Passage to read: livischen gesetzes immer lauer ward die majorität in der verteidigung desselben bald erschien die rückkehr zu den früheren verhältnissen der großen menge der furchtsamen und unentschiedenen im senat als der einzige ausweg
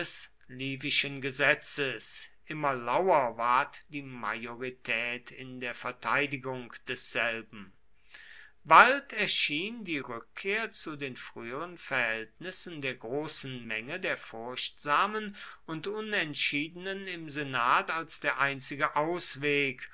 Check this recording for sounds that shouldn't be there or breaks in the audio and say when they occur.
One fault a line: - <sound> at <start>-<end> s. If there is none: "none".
none